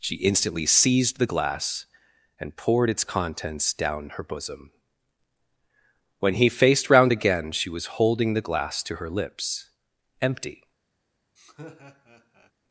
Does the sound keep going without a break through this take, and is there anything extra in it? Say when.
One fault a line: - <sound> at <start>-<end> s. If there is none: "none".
- laugh at 11.4-12.5 s